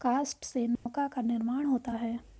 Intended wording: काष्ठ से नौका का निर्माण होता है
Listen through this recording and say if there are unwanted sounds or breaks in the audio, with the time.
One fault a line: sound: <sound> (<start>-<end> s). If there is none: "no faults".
sound: dropout (0.8-0.9 s)